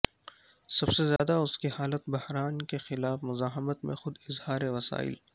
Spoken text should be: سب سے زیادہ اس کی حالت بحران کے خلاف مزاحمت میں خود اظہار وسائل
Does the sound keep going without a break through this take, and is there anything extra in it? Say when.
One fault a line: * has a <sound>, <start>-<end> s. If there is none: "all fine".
* has a dropout, 1.2-1.2 s